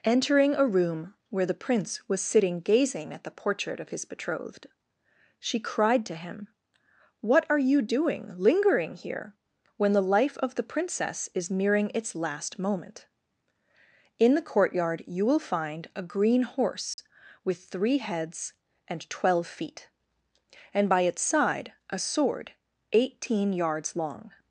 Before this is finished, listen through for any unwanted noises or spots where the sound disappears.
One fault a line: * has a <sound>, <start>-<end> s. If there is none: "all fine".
* has a dropout, 16.9-17.0 s